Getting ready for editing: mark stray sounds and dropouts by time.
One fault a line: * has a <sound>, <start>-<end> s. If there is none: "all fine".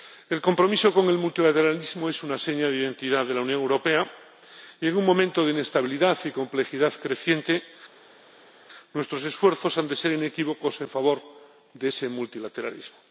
all fine